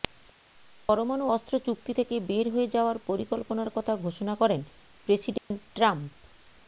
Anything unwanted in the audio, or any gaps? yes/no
yes